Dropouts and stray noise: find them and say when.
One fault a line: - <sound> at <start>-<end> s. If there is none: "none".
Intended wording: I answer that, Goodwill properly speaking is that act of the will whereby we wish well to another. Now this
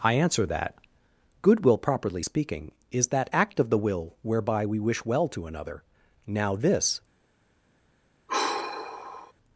- sigh at 8.3-9.3 s